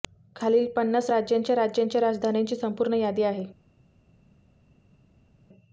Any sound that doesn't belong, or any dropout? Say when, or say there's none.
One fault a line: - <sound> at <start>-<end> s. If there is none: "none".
none